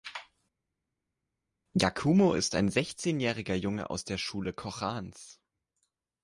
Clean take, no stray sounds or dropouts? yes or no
yes